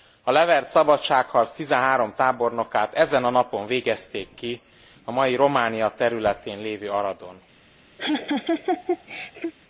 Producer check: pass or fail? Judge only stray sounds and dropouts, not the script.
fail